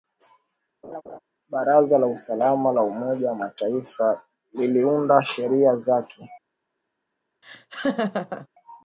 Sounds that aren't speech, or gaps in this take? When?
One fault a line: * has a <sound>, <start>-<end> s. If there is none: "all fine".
* has a laugh, 0.8-1.2 s
* has a laugh, 7.4-8.5 s